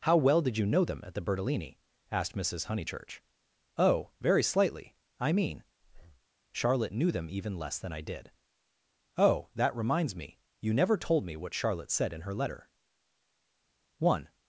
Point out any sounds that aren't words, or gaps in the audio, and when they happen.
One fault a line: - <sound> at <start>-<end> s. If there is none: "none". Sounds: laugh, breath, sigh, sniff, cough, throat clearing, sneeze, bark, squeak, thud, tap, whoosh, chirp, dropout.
- breath at 5.8-6.3 s